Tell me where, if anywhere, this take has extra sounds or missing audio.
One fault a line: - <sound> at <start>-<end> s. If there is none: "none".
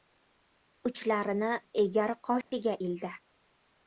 - dropout at 2.4-2.5 s